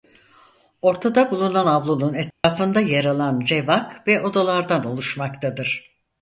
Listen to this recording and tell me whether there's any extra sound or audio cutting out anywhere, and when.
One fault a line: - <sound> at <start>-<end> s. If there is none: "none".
- dropout at 2.3-2.4 s